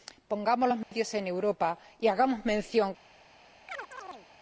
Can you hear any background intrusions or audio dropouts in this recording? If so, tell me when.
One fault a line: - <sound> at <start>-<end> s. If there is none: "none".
- dropout at 0.8-0.9 s
- chirp at 3.7-4.3 s